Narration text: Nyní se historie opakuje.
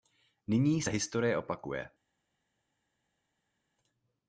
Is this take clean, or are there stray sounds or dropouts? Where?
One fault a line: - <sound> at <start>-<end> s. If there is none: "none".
none